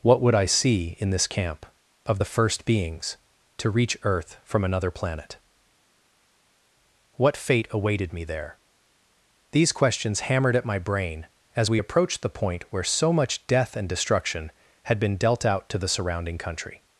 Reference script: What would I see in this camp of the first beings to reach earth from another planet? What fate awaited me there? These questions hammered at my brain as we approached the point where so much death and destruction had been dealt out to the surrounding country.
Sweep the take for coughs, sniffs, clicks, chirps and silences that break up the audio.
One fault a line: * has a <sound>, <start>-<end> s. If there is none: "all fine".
all fine